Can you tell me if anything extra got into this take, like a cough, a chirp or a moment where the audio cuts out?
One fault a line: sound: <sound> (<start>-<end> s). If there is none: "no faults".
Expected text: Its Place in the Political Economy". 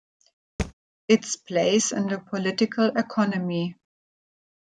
sound: thud (0.6-0.7 s)